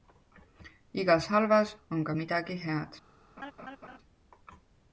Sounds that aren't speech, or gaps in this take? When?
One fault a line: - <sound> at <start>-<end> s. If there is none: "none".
- laugh at 3.4-4.0 s